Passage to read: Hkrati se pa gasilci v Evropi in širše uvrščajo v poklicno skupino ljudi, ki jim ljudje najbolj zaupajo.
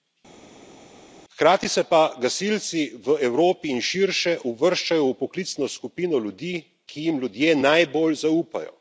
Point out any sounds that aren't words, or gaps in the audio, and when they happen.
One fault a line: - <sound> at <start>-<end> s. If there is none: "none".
none